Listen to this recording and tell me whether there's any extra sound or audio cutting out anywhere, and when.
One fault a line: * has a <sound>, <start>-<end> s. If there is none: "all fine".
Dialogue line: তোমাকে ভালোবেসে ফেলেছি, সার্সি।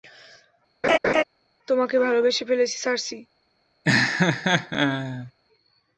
* has a laugh, 0.8-1.2 s
* has a laugh, 3.8-5.3 s